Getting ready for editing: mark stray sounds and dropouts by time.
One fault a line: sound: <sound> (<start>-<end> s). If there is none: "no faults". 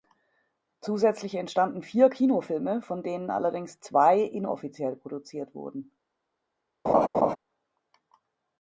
sound: laugh (6.9-7.4 s)